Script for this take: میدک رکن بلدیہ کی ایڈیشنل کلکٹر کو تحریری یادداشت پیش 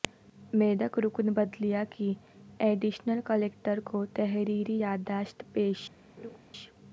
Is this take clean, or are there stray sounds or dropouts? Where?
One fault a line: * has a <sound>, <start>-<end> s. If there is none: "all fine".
* has a laugh, 6.2-6.4 s